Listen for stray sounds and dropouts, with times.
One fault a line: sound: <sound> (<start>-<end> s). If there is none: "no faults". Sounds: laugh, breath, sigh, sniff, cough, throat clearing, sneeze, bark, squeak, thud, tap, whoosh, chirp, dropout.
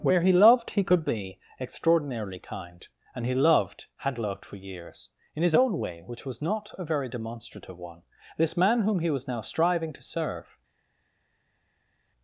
no faults